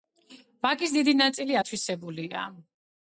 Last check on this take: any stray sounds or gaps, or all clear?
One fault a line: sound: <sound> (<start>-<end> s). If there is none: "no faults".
no faults